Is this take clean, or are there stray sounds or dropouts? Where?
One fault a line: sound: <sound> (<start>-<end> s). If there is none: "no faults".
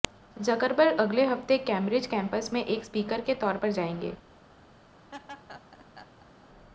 sound: laugh (5.1-6.5 s)